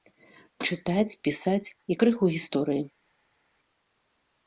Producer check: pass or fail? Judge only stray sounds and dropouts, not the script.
pass